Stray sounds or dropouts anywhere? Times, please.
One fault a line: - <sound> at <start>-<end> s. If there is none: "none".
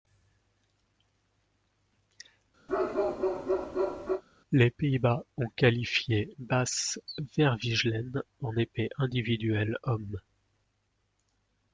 - bark at 2.7-4.2 s